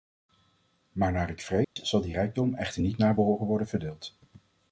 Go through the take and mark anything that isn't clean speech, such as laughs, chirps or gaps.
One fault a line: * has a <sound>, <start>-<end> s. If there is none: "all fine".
* has a dropout, 1.6-1.8 s